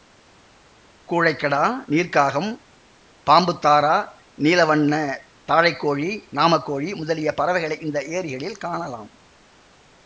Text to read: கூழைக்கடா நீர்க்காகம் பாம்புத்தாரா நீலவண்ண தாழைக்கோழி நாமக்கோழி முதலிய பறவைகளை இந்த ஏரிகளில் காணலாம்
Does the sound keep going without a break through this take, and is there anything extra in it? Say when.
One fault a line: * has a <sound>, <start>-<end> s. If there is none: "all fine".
all fine